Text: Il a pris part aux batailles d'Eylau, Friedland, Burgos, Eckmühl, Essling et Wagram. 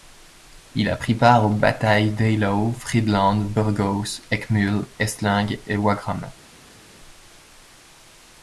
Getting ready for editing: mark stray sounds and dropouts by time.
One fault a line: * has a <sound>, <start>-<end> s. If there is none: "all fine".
all fine